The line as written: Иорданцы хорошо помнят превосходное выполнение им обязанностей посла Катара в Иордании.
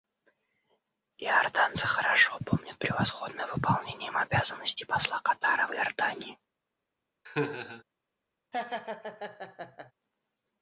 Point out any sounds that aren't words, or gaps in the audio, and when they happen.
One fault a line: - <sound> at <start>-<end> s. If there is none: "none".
- laugh at 7.3-7.8 s
- laugh at 8.5-9.9 s